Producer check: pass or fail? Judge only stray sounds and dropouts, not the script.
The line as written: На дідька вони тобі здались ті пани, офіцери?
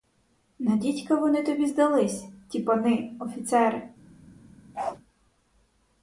fail